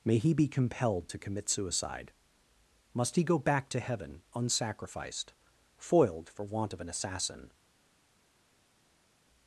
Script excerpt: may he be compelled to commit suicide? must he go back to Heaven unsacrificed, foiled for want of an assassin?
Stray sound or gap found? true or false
false